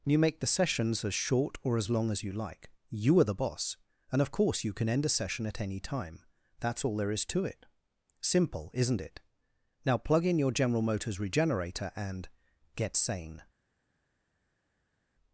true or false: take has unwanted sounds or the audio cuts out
false